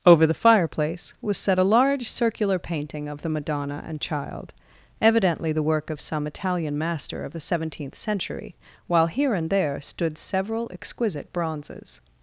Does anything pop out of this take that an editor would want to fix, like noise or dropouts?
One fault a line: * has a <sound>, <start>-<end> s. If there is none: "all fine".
all fine